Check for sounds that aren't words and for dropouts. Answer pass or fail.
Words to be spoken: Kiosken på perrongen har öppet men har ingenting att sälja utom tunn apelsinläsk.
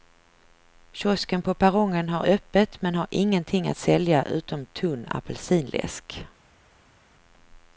pass